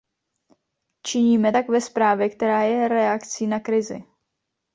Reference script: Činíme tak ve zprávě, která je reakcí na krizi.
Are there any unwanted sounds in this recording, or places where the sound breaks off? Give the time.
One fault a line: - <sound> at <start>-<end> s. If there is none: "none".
none